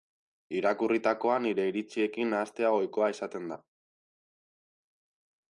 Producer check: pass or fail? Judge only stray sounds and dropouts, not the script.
pass